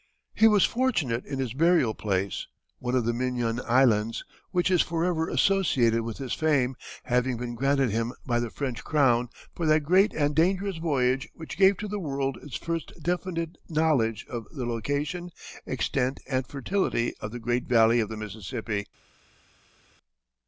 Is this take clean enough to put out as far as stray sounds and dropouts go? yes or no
yes